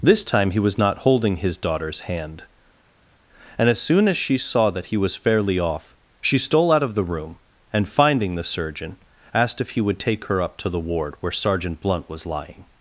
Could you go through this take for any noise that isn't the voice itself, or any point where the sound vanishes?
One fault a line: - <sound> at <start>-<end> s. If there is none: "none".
none